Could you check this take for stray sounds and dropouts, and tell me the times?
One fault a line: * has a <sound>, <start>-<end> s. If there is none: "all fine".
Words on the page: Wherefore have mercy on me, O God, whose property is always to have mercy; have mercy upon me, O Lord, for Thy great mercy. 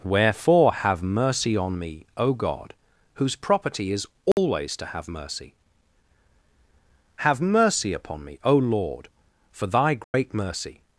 * has a dropout, 4.3-4.4 s
* has a dropout, 10.0-10.1 s